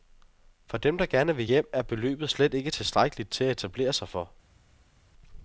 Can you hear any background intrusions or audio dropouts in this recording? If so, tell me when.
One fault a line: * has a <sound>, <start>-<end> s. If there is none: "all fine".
all fine